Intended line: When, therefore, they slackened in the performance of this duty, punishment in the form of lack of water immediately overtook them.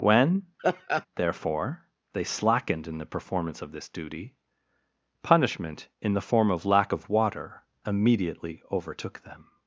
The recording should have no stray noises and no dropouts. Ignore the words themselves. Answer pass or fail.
fail